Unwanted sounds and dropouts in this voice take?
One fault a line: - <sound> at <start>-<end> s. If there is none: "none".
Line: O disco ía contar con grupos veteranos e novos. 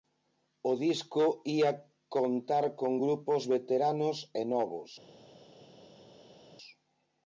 none